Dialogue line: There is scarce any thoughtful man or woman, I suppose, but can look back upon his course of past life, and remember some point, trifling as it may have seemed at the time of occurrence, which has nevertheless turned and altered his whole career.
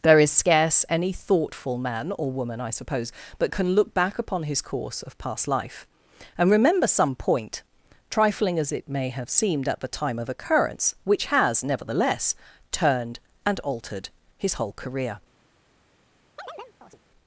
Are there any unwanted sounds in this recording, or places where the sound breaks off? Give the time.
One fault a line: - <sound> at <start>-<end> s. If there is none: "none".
- chirp at 16.4-17.0 s